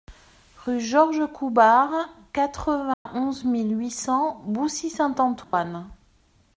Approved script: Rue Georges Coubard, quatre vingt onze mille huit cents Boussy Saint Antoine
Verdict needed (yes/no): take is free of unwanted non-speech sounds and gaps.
no